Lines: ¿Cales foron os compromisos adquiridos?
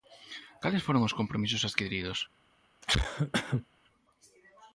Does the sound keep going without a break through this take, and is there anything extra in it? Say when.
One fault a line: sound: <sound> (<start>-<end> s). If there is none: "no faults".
sound: cough (2.8-3.7 s)